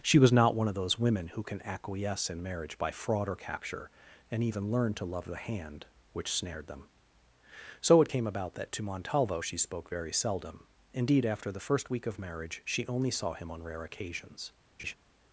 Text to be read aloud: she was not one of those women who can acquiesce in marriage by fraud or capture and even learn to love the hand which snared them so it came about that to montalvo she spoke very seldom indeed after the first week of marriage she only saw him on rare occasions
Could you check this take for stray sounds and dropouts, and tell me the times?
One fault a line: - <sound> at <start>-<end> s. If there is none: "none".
- laugh at 14.8-14.9 s